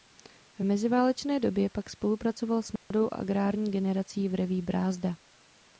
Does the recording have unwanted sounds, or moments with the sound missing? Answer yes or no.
yes